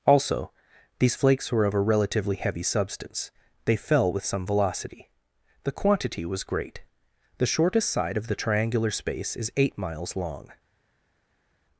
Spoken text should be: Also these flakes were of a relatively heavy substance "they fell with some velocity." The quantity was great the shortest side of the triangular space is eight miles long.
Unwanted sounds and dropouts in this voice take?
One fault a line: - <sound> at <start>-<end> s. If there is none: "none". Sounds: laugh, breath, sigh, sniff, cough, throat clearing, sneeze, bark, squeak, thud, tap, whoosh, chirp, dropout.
none